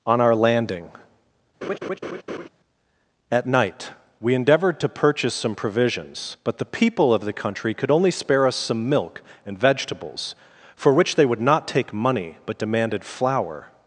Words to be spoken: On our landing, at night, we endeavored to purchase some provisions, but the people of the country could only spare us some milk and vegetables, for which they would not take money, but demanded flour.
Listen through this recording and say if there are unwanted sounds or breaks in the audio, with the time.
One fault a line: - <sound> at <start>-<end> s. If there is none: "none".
- laugh at 1.6-2.5 s